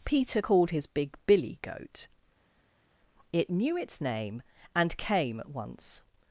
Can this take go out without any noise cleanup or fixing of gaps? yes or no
yes